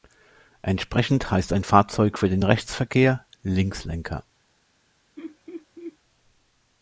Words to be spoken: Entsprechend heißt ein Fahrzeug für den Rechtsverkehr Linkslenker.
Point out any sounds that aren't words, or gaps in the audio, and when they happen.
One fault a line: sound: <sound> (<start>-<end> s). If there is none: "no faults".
sound: laugh (5.2-6.0 s)